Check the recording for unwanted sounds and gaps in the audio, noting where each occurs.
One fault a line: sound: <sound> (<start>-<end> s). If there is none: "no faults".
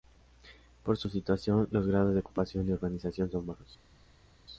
no faults